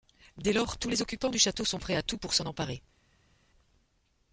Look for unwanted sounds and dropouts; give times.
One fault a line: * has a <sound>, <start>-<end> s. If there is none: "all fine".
all fine